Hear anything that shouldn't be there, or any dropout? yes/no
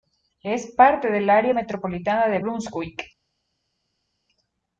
no